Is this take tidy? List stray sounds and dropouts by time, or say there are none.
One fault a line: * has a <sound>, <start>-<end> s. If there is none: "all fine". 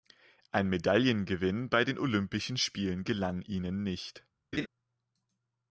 * has a laugh, 4.5-4.7 s